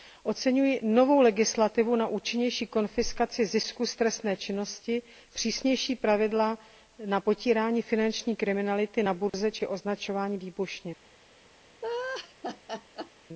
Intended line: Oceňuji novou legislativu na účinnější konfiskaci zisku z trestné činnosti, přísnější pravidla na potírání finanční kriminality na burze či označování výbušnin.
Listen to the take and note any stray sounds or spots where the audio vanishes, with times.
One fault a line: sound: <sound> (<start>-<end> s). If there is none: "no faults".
sound: dropout (9.3-9.3 s)
sound: laugh (11.8-13.1 s)